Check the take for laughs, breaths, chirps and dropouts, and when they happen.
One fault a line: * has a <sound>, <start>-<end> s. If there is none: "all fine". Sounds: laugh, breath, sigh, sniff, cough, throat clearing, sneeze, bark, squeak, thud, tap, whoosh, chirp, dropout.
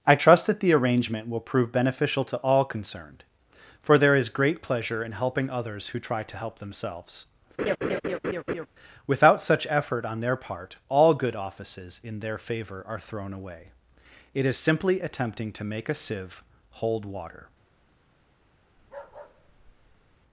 * has a laugh, 7.6-8.7 s
* has a bark, 18.8-20.2 s